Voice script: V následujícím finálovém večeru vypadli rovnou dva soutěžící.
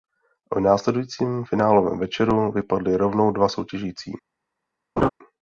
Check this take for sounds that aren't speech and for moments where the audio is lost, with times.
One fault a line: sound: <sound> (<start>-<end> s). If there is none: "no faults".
sound: laugh (5.0-5.1 s)